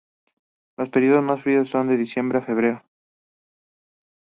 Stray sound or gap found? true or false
false